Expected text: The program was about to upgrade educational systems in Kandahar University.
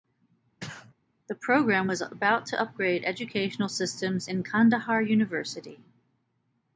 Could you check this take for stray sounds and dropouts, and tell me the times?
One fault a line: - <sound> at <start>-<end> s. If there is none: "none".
- sneeze at 0.6-0.9 s